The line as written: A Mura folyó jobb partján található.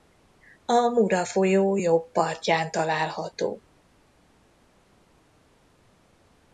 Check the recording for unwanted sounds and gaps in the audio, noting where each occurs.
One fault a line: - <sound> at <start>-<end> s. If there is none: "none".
none